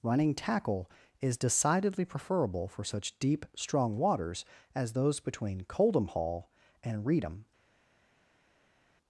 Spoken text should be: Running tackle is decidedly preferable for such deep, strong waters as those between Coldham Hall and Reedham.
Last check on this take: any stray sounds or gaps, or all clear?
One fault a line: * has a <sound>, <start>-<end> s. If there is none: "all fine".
all fine